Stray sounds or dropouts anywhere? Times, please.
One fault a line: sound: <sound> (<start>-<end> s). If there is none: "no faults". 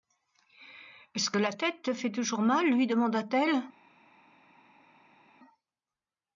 no faults